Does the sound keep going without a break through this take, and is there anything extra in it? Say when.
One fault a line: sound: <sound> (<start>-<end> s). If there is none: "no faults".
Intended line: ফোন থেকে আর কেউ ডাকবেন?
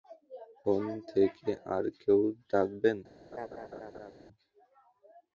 sound: laugh (3.3-4.1 s)